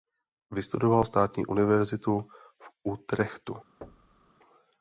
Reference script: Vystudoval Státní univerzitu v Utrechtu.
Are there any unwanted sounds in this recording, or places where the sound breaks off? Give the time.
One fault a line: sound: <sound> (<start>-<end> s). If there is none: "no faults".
sound: thud (3.8-4.3 s)